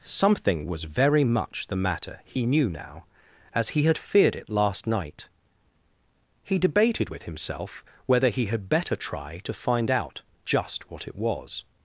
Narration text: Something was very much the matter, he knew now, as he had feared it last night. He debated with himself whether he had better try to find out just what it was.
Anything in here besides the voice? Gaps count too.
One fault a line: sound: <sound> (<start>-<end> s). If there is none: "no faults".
no faults